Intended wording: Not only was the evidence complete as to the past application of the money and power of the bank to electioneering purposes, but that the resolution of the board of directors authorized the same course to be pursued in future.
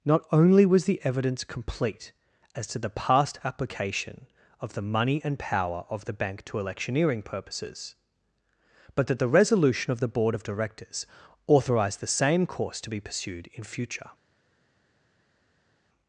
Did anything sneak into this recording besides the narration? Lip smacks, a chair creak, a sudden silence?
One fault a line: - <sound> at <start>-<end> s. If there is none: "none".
none